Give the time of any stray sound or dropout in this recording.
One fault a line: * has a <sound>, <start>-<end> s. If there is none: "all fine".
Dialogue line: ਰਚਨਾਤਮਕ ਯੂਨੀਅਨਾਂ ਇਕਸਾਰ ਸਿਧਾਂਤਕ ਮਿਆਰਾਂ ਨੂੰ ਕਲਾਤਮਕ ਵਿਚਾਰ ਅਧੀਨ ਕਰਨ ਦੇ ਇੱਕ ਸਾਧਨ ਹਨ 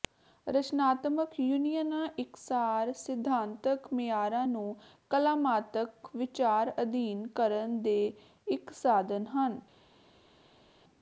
all fine